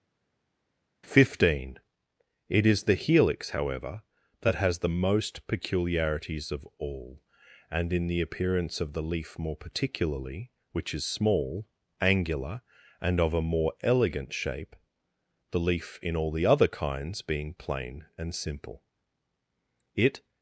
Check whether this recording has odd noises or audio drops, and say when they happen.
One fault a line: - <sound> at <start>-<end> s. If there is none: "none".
none